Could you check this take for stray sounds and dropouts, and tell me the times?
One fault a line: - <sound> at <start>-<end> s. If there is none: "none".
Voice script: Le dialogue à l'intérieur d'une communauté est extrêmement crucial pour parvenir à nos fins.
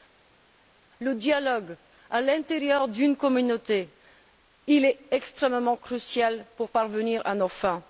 none